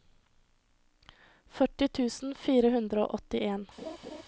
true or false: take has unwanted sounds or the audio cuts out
true